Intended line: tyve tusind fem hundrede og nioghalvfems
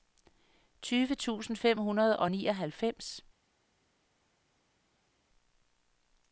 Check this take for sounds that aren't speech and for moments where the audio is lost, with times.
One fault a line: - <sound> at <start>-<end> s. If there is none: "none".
none